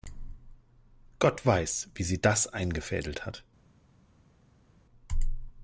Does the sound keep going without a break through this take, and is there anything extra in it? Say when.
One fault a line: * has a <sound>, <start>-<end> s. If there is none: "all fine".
all fine